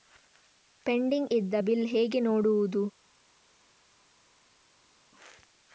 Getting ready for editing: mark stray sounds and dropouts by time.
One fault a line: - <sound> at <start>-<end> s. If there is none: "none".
none